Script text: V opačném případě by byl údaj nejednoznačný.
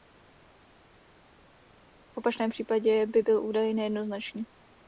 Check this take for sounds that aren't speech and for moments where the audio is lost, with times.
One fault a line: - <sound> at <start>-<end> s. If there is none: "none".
none